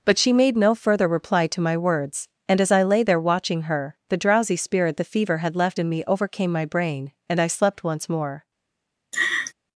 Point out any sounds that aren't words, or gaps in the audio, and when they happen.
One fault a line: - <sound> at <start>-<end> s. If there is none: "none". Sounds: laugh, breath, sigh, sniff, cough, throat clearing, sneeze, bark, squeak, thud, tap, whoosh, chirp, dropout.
- laugh at 9.1-9.5 s